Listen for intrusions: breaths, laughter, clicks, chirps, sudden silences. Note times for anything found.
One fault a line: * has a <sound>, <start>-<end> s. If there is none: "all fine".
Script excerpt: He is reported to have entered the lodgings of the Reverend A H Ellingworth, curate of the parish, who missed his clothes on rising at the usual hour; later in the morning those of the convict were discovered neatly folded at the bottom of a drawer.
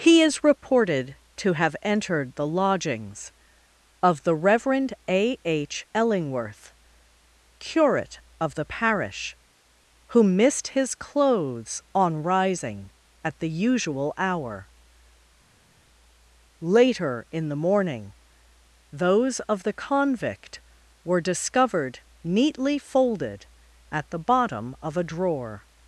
all fine